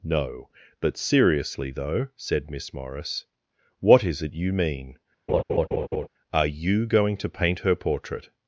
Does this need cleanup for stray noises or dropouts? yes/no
yes